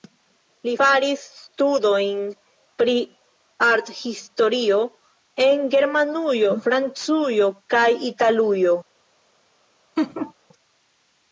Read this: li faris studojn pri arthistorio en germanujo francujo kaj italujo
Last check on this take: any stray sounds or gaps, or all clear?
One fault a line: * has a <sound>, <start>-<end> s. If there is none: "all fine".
* has a laugh, 10.0-10.3 s